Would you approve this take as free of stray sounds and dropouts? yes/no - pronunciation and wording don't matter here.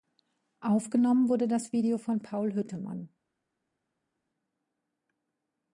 yes